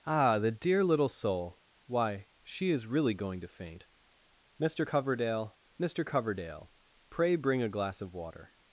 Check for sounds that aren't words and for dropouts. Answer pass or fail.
pass